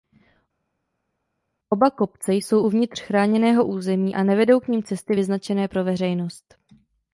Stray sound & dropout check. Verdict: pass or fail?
pass